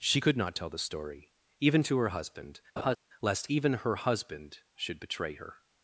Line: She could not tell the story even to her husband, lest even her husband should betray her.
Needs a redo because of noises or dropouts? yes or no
yes